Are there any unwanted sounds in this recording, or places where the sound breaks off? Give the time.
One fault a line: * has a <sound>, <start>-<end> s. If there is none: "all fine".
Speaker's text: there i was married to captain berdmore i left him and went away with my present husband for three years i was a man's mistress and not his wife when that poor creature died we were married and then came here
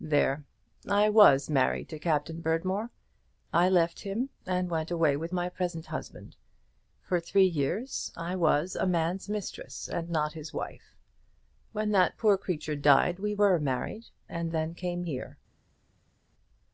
all fine